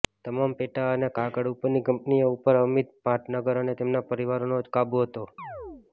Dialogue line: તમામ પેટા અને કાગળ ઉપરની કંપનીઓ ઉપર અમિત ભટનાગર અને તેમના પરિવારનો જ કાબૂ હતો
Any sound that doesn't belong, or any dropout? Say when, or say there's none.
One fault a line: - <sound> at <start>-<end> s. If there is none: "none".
- chirp at 5.4-5.9 s